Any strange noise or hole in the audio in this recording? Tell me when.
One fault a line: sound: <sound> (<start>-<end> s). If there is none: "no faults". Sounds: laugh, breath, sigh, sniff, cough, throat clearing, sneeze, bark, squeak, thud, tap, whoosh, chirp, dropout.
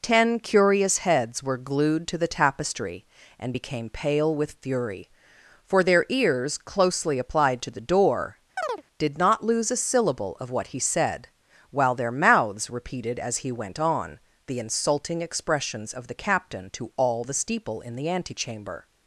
sound: chirp (8.6-8.8 s)